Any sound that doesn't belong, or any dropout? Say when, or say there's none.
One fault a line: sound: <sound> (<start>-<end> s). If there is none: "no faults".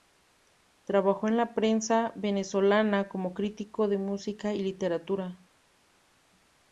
no faults